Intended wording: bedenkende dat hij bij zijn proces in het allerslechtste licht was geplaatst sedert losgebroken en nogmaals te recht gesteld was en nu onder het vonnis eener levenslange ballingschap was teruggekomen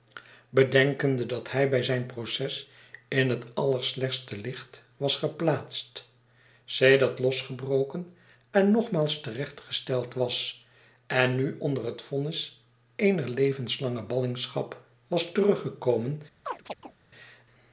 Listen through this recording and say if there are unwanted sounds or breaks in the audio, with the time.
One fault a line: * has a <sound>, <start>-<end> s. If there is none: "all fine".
* has a chirp, 16.4-17.0 s